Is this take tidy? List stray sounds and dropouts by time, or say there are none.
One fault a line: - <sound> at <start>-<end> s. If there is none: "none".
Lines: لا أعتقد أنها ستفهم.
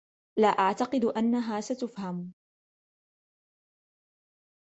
none